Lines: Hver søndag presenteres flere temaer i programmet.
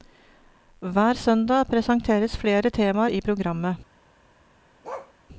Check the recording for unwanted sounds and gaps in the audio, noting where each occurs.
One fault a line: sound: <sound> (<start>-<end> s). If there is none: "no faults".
sound: bark (4.8-5.1 s)